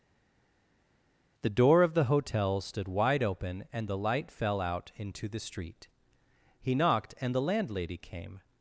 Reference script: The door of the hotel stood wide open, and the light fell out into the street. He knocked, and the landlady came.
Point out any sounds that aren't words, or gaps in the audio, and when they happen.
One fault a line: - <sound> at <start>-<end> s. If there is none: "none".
none